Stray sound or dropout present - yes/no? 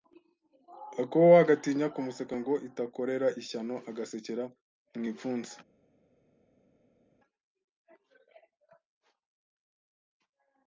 no